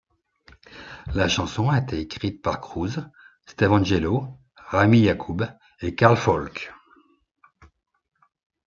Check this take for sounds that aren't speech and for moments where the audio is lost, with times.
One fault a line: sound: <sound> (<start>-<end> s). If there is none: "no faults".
no faults